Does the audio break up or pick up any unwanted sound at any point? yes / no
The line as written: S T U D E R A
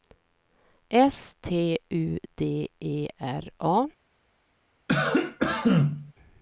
yes